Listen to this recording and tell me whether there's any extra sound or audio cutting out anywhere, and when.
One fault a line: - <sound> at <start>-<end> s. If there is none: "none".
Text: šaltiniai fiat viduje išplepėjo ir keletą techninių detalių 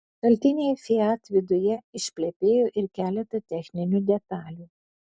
none